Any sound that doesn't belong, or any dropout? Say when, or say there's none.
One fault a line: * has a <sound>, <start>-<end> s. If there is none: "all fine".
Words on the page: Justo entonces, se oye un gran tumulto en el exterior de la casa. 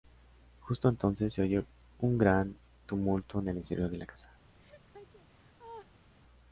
* has a laugh, 4.6-6.1 s